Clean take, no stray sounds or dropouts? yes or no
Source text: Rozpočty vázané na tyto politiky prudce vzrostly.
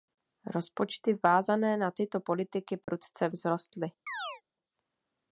no